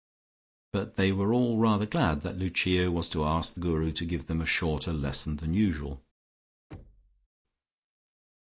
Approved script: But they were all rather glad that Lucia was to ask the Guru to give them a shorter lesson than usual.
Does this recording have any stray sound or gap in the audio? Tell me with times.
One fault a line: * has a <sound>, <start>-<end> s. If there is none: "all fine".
* has a thud, 6.7-7.3 s